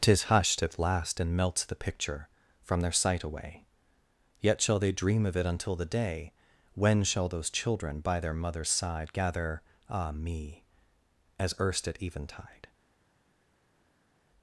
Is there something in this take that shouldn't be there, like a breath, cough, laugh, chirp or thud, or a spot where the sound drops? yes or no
no